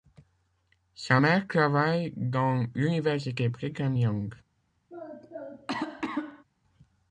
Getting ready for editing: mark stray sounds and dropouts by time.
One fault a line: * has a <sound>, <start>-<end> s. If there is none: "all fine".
* has a cough, 4.9-6.4 s